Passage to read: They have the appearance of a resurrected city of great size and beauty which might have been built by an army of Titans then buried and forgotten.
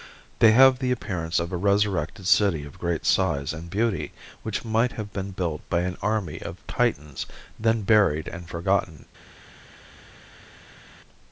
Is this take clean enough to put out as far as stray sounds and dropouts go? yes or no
yes